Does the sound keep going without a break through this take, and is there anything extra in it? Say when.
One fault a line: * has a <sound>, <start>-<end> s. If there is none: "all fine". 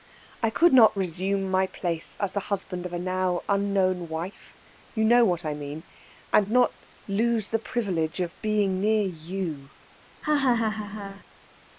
* has a laugh, 10.2-11.2 s